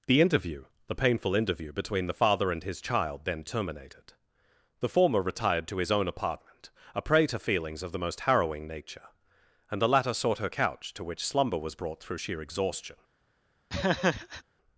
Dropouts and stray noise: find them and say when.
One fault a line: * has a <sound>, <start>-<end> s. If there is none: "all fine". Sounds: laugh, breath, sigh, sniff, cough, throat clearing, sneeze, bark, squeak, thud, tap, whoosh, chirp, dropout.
* has a laugh, 13.7-14.4 s